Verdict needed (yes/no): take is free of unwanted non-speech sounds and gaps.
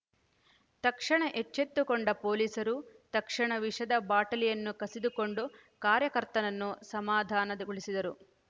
yes